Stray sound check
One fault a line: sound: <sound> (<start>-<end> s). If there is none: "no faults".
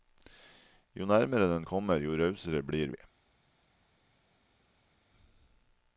no faults